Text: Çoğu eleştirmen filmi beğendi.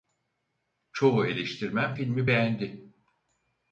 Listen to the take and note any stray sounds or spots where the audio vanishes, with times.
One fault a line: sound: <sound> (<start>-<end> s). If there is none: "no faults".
no faults